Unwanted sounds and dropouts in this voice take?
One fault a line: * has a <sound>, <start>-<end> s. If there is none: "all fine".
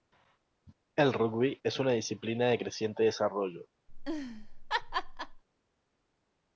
* has a laugh, 3.9-5.4 s